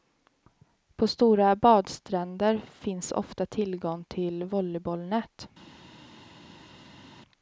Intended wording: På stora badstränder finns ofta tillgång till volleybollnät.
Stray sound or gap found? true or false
false